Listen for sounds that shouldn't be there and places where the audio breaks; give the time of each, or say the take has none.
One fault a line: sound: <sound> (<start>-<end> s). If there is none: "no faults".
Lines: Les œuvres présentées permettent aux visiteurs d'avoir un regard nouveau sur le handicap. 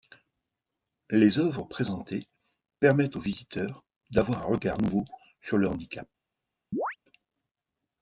sound: chirp (6.7-7.0 s)